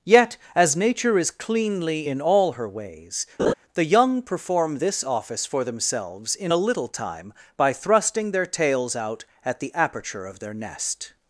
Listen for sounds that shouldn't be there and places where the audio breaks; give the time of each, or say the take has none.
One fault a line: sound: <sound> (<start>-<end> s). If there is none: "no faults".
sound: laugh (3.4-3.5 s)